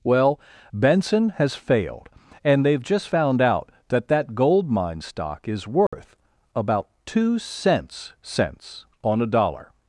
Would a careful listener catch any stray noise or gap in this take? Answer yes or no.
yes